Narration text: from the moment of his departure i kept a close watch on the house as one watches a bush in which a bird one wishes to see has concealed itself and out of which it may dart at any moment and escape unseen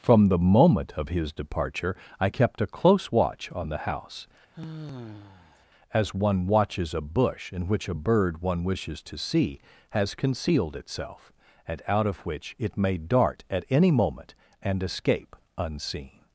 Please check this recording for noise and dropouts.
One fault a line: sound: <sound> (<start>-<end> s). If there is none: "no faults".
sound: sigh (4.5-5.7 s)